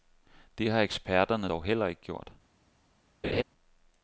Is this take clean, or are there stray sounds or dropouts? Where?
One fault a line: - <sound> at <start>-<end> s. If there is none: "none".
- laugh at 3.2-3.4 s